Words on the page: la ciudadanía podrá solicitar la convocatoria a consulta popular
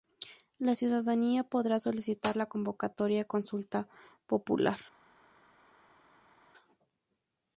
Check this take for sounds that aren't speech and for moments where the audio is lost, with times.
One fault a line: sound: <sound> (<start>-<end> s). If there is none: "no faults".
no faults